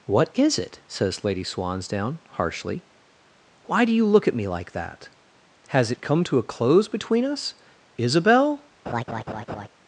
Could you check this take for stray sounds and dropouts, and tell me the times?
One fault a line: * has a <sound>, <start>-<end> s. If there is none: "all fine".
* has a laugh, 8.9-9.7 s